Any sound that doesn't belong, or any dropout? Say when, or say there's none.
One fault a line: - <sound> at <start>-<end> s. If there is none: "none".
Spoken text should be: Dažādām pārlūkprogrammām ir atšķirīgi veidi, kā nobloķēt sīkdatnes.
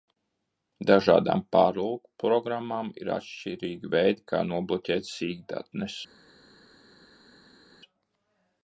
none